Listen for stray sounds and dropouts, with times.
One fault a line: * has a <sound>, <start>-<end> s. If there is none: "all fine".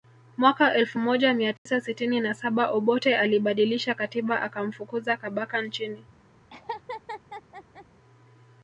* has a dropout, 1.6-1.7 s
* has a laugh, 6.5-7.9 s